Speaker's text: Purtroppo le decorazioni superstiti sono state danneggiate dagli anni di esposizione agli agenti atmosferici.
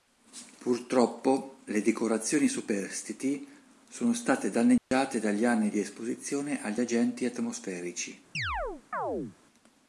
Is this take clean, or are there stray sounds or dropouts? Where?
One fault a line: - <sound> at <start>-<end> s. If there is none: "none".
- dropout at 4.8-4.9 s
- chirp at 8.3-9.4 s